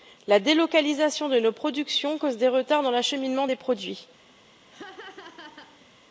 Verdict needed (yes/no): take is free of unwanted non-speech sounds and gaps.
no